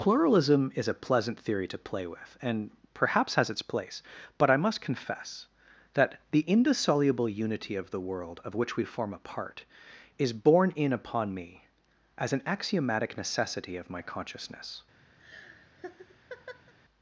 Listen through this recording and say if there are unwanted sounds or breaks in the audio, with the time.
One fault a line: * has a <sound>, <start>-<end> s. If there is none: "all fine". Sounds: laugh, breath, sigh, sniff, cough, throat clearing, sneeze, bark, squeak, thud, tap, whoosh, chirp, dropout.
* has a laugh, 15.2-16.7 s